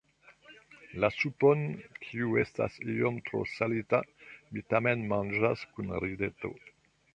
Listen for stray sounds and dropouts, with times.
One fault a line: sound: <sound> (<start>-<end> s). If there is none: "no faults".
no faults